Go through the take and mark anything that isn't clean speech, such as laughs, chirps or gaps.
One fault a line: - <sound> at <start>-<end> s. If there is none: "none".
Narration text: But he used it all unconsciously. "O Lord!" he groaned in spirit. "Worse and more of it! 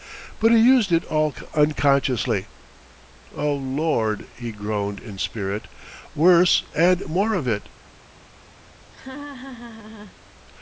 - laugh at 8.9-10.2 s